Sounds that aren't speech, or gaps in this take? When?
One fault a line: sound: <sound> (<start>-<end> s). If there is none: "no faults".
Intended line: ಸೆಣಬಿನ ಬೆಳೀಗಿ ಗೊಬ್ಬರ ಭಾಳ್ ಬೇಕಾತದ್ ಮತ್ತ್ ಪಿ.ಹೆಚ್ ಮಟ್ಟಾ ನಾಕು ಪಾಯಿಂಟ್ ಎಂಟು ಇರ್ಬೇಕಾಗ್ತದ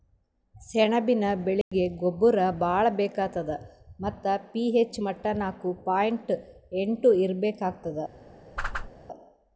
sound: dropout (1.6-1.7 s)
sound: whoosh (8.6-8.9 s)